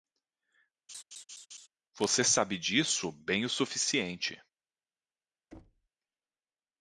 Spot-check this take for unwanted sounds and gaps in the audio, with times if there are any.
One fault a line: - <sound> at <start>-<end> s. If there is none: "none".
- laugh at 0.9-1.7 s
- thud at 5.5-5.9 s